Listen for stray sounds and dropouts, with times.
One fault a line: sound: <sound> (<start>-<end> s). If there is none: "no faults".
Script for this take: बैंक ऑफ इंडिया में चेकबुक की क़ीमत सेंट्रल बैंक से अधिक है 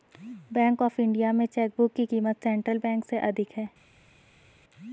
no faults